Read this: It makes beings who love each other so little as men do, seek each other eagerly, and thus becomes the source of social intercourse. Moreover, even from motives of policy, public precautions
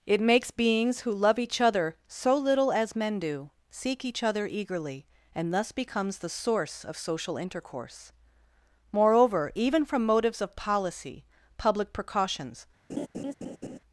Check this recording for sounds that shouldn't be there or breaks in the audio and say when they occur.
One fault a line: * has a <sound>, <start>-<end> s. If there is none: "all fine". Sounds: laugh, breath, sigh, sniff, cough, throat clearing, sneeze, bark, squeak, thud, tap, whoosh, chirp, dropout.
* has a laugh, 12.9-13.8 s